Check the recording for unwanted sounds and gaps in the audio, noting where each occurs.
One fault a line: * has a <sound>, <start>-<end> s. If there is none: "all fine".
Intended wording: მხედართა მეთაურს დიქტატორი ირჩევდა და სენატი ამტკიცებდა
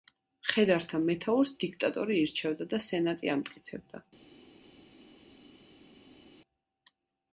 all fine